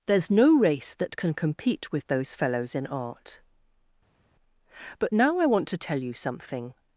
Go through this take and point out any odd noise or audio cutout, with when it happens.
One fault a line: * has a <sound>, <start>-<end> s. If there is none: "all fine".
all fine